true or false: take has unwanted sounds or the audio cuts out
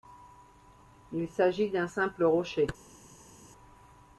false